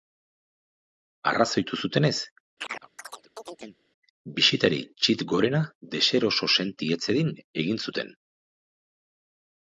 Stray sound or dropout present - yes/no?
yes